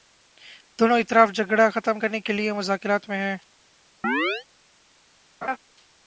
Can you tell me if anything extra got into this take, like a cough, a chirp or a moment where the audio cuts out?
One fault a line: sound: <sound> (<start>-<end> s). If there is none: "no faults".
sound: chirp (4.0-4.5 s)
sound: laugh (5.4-5.6 s)